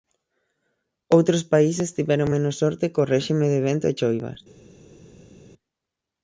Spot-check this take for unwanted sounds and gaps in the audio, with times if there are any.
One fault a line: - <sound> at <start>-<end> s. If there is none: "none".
none